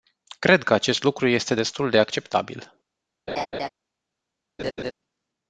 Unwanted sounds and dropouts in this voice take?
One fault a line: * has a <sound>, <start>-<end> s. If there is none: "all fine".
* has a laugh, 3.3-3.7 s
* has a laugh, 4.6-4.9 s